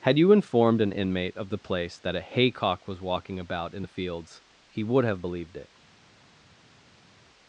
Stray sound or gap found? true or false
false